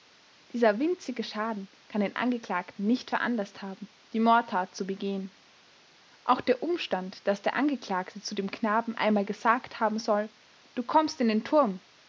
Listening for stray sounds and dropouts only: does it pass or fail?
pass